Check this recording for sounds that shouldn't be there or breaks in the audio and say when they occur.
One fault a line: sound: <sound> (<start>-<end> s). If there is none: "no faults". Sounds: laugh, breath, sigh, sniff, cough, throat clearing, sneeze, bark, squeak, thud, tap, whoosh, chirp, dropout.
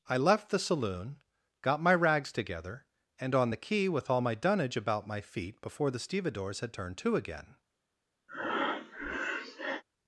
sound: breath (8.3-9.8 s)